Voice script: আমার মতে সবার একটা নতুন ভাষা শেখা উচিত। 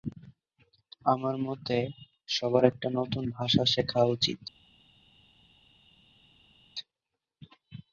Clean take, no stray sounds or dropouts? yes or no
yes